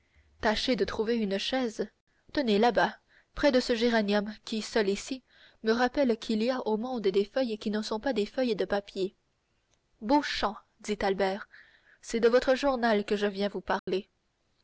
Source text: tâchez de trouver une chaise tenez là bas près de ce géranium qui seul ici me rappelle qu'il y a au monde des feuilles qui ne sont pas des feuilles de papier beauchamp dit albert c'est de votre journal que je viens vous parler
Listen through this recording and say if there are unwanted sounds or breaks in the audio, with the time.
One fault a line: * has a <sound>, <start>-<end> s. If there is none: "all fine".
* has a dropout, 13.8-13.9 s